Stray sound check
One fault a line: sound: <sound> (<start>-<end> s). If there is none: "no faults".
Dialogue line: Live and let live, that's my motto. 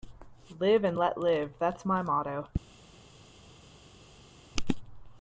no faults